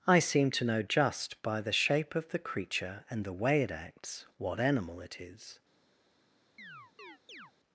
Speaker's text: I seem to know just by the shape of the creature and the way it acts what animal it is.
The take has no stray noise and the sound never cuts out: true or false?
false